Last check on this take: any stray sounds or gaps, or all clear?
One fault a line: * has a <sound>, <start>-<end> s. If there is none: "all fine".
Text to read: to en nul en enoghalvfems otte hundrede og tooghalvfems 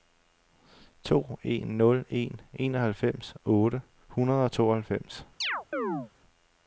* has a chirp, 5.4-6.1 s